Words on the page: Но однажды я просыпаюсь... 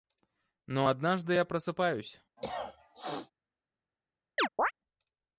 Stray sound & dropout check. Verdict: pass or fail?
fail